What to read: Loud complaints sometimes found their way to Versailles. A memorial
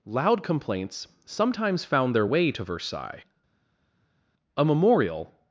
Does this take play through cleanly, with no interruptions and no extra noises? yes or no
yes